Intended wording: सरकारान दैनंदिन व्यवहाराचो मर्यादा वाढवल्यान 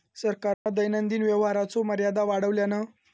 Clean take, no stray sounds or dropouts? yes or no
no